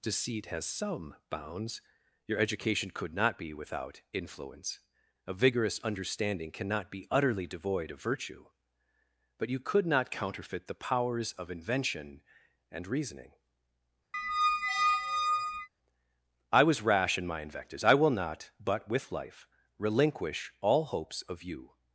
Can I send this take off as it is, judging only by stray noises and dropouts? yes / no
no